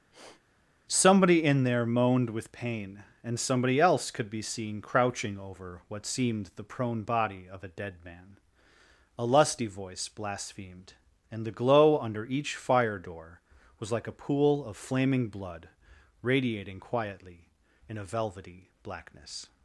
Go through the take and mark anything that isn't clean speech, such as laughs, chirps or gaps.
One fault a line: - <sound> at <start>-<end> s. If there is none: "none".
- sniff at 0.1-0.4 s